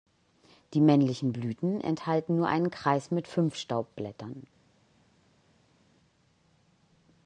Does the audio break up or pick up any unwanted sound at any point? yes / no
no